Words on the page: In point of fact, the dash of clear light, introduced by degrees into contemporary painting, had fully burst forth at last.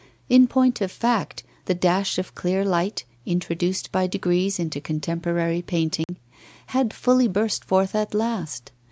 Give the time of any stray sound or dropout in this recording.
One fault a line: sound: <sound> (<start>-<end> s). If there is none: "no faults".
sound: dropout (6.0-6.1 s)